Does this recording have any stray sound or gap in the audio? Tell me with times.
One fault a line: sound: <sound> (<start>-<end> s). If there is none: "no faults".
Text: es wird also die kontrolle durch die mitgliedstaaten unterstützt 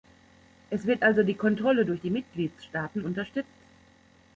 no faults